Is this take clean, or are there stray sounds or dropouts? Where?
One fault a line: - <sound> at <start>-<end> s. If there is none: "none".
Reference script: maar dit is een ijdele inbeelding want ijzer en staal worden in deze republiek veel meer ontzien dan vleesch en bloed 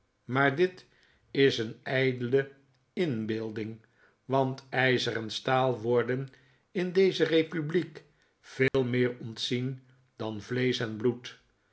- dropout at 8.7-8.7 s